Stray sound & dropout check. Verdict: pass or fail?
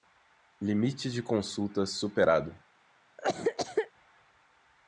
fail